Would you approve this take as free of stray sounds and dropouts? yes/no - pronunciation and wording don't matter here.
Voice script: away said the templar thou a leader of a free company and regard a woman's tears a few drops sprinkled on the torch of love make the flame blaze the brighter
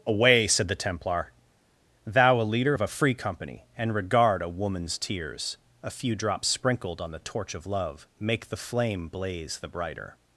yes